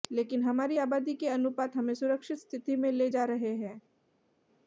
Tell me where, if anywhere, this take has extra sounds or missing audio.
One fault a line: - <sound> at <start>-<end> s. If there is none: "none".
none